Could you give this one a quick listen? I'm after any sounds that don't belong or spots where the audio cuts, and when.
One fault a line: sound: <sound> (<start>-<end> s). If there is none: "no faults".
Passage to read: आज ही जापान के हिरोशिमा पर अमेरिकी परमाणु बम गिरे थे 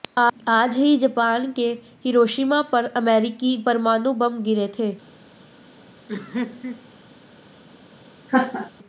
sound: laugh (6.1-6.9 s)
sound: laugh (8.3-8.7 s)